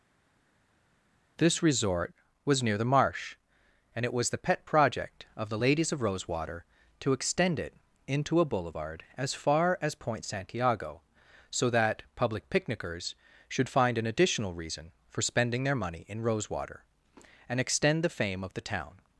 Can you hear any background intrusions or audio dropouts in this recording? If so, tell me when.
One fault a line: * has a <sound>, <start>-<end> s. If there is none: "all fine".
all fine